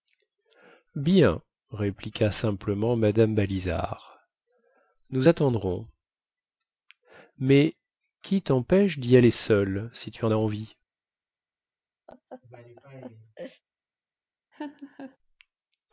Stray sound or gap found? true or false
true